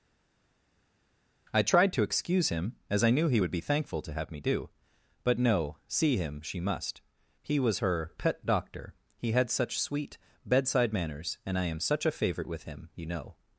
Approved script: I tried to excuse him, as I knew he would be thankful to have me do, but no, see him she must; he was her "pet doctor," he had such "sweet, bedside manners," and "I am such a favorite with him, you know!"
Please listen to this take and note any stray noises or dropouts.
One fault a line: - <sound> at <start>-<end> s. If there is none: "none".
none